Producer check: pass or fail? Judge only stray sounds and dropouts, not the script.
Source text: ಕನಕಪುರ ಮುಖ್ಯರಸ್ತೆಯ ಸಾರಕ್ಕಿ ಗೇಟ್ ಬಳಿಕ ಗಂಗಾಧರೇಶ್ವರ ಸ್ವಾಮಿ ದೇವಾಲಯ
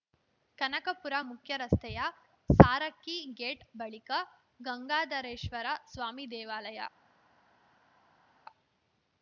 pass